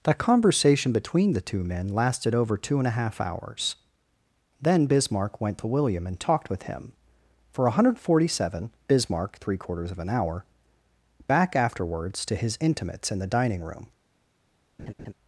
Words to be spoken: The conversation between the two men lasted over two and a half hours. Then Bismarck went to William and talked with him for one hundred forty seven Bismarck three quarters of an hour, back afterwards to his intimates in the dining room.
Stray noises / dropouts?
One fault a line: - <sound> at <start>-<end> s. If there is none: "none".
- laugh at 14.8-15.1 s